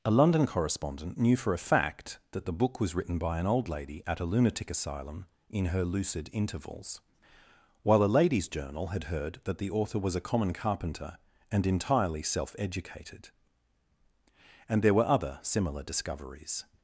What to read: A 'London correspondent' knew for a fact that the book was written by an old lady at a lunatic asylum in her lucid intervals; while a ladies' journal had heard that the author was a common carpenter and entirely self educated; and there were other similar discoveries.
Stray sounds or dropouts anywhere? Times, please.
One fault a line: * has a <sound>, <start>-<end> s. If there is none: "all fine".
all fine